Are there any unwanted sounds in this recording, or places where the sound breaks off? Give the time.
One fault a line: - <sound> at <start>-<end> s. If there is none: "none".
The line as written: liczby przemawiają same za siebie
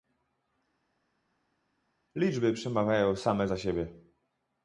none